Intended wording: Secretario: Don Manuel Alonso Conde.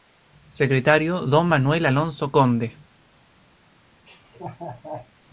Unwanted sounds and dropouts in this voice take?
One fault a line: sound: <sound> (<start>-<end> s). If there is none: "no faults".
sound: laugh (4.1-5.1 s)